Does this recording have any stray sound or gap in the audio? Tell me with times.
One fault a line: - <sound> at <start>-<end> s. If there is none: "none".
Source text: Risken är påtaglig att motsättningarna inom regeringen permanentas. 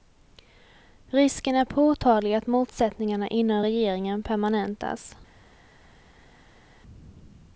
none